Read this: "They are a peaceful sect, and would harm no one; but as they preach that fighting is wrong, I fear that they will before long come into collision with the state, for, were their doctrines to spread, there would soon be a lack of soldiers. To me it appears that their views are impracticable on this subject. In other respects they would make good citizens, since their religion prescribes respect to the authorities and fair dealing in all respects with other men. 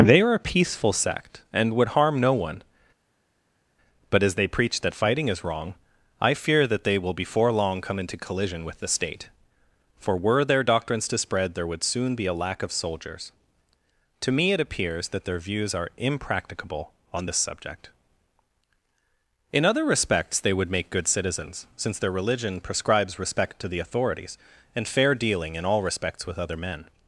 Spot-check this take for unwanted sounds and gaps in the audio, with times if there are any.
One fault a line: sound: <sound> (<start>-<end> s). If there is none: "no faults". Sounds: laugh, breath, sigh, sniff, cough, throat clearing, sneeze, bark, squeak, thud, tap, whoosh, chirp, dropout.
no faults